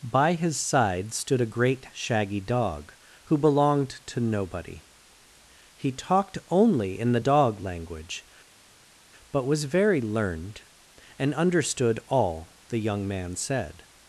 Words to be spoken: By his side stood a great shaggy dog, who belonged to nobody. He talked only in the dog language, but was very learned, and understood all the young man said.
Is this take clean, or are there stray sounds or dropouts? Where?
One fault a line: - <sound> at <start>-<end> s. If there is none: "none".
none